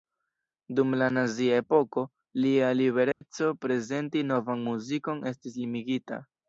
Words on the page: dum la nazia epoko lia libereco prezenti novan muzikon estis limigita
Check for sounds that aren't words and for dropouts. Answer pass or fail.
fail